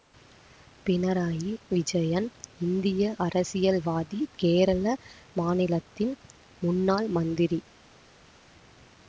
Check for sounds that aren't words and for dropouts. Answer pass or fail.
pass